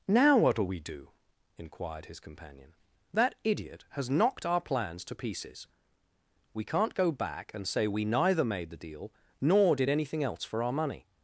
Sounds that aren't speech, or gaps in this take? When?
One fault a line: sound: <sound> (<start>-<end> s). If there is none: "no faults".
no faults